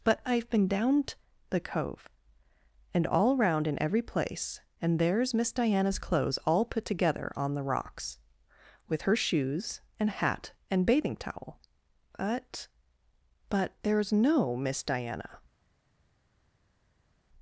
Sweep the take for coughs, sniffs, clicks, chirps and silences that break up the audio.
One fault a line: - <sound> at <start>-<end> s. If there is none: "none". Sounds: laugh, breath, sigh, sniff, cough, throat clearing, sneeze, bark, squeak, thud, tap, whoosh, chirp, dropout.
none